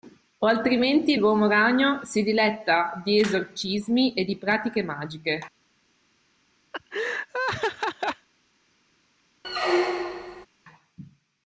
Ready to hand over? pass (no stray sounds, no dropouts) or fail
fail